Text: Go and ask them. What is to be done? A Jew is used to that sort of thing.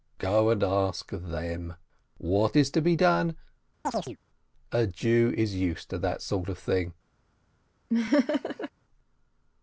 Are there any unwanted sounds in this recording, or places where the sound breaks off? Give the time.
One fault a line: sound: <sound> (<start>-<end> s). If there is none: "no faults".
sound: chirp (3.8-4.2 s)
sound: laugh (7.9-8.7 s)